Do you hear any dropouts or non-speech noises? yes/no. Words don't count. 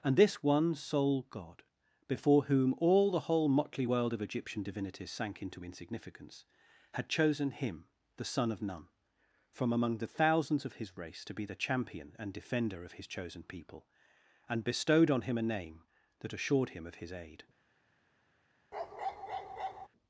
yes